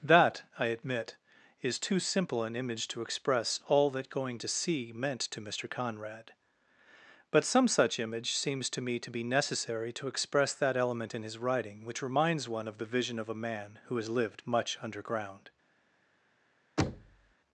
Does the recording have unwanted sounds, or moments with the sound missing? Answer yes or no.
yes